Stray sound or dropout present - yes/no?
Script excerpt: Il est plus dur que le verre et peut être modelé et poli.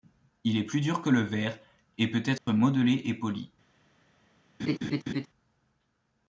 yes